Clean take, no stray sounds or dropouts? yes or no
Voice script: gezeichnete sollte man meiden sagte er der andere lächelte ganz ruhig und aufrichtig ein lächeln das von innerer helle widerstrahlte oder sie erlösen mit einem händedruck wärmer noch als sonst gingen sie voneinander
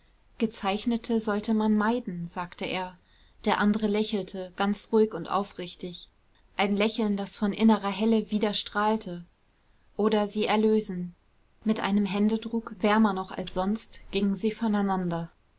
yes